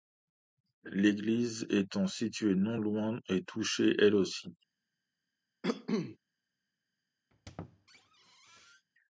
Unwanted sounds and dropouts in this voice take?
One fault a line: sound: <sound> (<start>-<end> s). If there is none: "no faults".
sound: cough (5.6-6.2 s)
sound: squeak (7.3-8.9 s)